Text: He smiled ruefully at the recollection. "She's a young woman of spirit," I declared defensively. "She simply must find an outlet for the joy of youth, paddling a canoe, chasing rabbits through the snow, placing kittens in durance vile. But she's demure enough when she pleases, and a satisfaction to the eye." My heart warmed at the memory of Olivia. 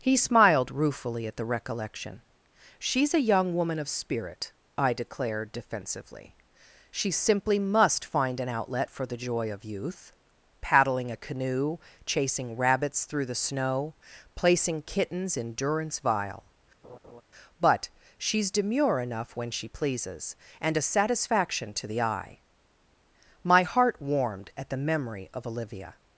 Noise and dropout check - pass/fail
fail